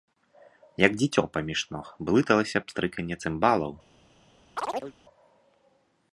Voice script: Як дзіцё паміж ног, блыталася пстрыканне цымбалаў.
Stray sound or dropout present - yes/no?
yes